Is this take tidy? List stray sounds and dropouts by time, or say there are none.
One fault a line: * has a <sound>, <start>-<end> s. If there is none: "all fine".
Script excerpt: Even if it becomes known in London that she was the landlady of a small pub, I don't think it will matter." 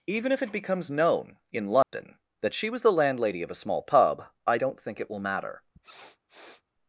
* has a dropout, 1.8-1.9 s
* has a sniff, 5.7-6.6 s